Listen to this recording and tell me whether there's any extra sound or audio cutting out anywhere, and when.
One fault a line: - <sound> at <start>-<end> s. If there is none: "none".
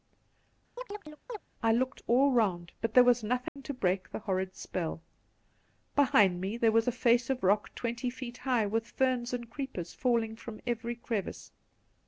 - chirp at 0.8-1.4 s
- dropout at 3.5-3.6 s